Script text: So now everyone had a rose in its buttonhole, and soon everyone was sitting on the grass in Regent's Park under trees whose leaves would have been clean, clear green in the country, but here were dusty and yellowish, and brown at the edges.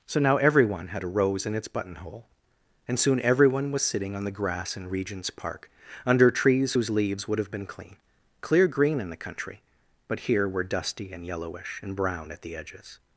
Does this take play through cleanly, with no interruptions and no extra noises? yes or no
yes